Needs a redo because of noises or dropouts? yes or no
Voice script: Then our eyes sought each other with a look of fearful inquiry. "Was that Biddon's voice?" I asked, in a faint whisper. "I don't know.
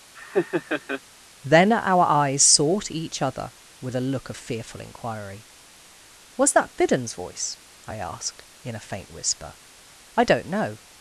yes